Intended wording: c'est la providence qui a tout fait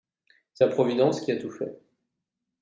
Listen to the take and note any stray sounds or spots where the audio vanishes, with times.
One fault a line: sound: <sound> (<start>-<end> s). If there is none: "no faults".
no faults